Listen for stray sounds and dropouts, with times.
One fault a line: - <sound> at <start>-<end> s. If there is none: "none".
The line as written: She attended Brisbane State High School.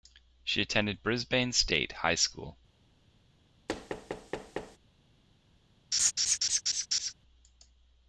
- thud at 3.7-4.8 s
- laugh at 5.9-7.1 s